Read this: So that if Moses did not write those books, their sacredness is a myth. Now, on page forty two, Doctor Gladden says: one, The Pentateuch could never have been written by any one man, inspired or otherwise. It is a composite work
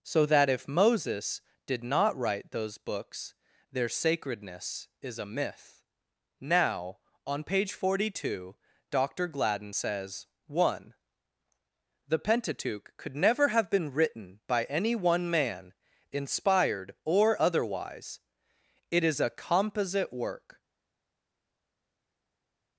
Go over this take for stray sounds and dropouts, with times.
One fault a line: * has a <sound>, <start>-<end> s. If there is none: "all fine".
all fine